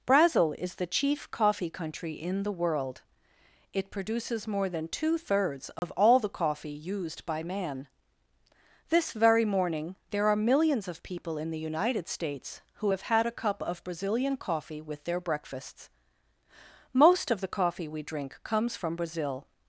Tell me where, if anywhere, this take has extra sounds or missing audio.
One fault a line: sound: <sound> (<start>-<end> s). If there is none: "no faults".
sound: dropout (5.8-5.8 s)